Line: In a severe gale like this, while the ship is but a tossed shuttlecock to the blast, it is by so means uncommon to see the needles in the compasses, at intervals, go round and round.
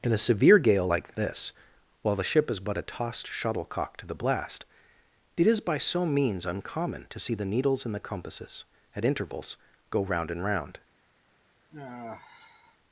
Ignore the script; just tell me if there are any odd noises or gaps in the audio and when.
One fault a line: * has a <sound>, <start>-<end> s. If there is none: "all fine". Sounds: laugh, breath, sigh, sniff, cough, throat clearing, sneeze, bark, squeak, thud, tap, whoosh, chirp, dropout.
* has a sigh, 11.7-12.8 s